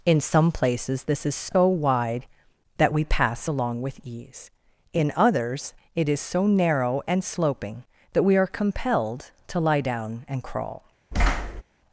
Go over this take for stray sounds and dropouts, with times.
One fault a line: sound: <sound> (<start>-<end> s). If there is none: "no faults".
sound: thud (11.1-11.6 s)